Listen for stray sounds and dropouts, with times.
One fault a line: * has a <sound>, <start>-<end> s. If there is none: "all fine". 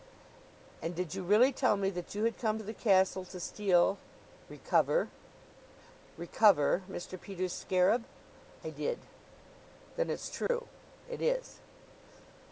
* has a dropout, 10.5-10.5 s